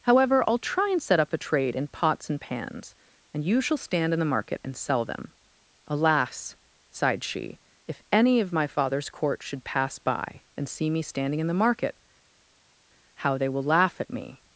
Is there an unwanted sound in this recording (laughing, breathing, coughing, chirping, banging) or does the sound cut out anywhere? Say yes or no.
no